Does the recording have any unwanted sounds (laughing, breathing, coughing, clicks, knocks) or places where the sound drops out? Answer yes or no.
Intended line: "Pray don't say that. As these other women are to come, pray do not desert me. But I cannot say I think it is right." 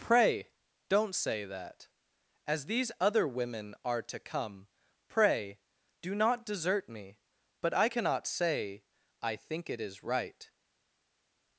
no